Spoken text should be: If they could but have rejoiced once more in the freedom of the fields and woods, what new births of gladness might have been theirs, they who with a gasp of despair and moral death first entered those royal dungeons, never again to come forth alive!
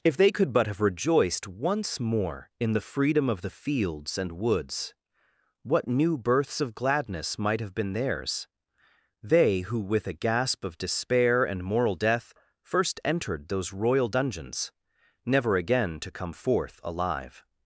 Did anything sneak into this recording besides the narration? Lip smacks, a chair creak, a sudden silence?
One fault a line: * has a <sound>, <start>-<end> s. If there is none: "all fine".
all fine